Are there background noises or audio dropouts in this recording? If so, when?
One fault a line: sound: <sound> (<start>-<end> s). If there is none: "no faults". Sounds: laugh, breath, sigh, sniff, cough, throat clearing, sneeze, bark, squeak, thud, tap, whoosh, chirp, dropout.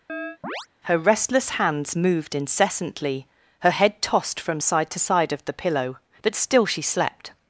sound: chirp (0.1-0.7 s)